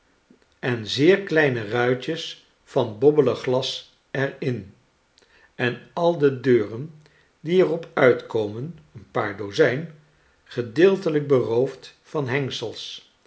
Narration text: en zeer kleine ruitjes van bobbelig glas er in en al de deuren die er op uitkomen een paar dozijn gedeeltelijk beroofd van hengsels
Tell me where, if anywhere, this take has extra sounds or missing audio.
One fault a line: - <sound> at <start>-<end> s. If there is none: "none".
none